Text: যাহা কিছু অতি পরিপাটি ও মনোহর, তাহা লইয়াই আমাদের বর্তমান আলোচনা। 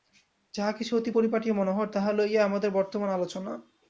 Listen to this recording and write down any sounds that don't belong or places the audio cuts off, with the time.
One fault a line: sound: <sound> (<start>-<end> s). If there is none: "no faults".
no faults